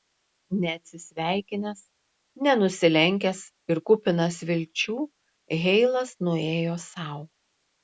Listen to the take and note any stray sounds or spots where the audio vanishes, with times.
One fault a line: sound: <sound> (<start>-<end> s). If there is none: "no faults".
no faults